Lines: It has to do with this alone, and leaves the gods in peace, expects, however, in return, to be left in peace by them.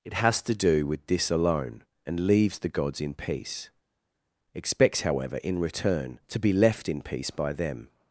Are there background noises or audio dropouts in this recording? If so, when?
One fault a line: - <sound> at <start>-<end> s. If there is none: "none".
none